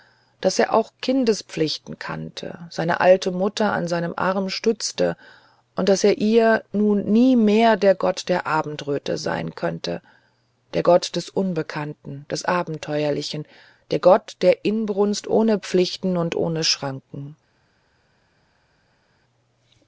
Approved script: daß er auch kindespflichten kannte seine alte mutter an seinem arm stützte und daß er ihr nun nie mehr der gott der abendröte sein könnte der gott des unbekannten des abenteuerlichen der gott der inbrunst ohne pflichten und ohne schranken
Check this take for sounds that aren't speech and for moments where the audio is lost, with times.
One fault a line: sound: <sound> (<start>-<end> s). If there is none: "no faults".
no faults